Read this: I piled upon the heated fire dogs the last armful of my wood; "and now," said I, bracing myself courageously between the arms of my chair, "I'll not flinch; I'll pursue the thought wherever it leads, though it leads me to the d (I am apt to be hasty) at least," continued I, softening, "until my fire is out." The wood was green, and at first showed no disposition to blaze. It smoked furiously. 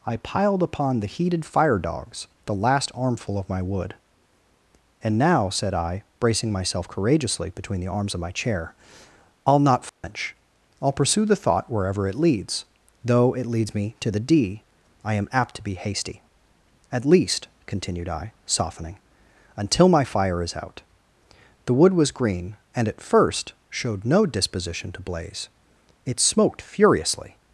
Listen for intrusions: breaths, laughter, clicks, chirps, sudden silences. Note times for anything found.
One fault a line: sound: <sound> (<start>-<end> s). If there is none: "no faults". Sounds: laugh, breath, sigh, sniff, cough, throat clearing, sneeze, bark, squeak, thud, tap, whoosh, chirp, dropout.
sound: dropout (9.9-10.0 s)